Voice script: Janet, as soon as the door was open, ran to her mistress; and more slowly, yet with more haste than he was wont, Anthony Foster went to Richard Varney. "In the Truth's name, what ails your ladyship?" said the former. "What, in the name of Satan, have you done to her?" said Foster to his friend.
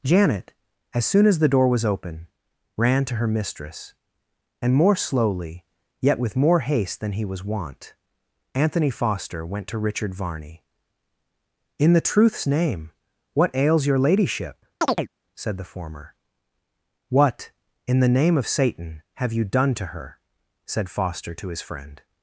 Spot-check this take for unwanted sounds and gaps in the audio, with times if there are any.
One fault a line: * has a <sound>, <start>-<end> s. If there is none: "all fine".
* has a chirp, 14.8-15.1 s